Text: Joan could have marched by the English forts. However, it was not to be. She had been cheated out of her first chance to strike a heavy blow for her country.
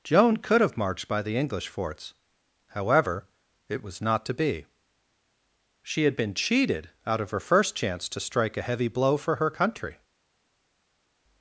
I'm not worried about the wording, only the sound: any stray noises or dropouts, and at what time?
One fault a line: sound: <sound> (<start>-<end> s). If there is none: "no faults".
no faults